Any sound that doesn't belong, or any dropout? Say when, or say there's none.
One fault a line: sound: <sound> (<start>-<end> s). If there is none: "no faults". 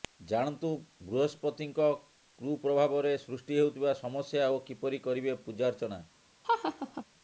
sound: laugh (6.4-7.0 s)